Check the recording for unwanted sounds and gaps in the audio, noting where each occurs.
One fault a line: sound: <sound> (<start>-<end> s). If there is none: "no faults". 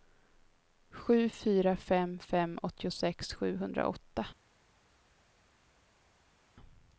no faults